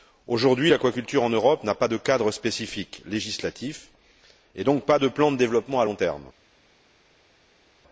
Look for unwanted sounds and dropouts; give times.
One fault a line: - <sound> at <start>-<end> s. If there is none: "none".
none